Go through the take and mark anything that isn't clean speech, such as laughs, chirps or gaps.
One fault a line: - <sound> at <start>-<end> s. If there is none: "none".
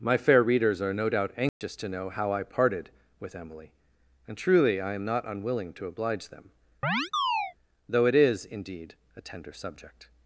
- dropout at 1.5-1.6 s
- chirp at 6.8-7.5 s